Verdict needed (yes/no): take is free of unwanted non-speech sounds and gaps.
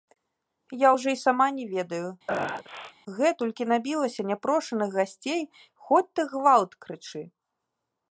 no